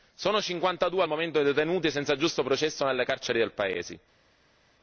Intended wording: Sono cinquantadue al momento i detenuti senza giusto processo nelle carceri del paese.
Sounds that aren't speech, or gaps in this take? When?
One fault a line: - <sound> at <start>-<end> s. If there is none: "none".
none